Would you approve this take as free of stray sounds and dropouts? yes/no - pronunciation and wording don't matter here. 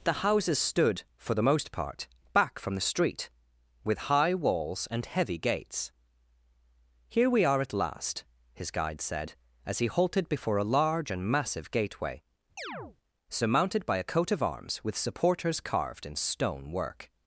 no